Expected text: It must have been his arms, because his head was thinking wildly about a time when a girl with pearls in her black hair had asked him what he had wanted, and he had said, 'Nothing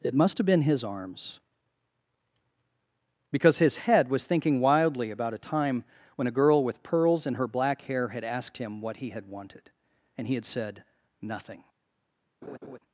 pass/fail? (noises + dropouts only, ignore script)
fail